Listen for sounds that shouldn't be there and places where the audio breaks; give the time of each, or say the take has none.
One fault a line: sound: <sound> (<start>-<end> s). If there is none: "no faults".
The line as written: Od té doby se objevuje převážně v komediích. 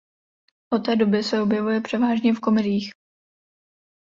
no faults